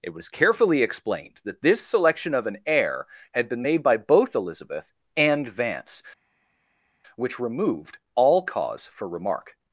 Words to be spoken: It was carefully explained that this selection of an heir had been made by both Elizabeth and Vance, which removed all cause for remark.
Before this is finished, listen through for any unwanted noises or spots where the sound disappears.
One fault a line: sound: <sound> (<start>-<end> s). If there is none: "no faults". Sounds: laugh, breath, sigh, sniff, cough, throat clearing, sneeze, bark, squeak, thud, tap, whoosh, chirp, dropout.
no faults